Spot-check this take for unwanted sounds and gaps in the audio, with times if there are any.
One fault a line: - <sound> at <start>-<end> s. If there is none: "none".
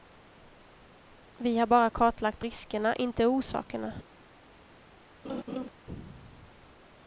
- laugh at 5.2-5.7 s